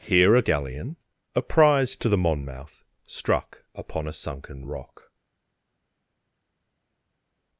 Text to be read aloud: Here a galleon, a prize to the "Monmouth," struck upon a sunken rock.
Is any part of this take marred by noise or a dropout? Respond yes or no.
no